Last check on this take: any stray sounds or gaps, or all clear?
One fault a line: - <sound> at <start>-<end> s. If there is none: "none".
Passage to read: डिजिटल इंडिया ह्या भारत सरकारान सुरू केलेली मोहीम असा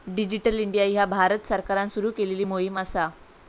none